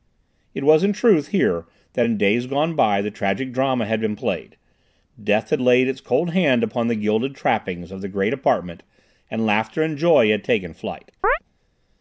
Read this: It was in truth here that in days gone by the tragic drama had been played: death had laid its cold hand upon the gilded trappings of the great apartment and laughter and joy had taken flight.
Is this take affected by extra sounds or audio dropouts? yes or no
yes